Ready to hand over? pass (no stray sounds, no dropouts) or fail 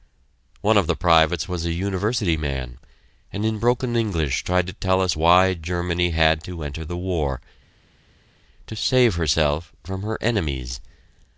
pass